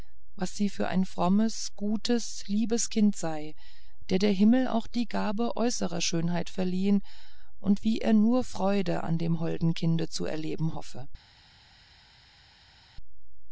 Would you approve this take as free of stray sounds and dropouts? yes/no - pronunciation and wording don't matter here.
yes